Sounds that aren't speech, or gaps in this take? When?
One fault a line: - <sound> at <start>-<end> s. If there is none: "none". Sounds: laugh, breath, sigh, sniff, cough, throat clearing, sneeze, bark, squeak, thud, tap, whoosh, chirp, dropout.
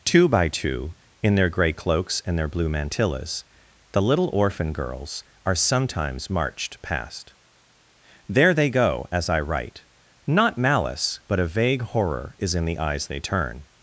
none